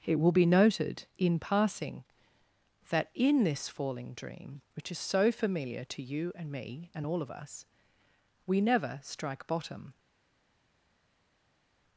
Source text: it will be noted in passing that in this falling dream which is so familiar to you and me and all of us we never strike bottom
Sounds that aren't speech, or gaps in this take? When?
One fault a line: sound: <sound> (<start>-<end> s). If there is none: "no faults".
no faults